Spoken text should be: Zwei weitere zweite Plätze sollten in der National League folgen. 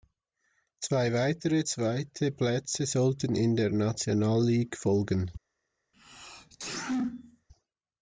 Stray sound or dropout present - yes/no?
yes